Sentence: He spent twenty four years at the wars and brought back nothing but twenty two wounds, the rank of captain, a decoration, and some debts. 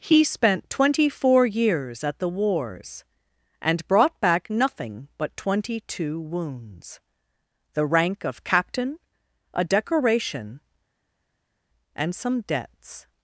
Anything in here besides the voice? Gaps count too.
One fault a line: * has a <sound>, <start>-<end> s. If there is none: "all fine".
all fine